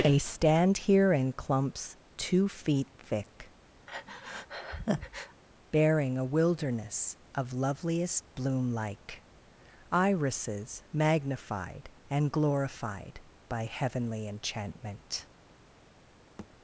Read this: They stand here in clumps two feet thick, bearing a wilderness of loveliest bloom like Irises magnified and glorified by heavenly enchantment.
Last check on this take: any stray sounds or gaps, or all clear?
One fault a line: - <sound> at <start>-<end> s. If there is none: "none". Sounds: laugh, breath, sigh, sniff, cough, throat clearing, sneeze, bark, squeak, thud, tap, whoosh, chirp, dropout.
- breath at 3.9-5.4 s
- thud at 16.4-16.5 s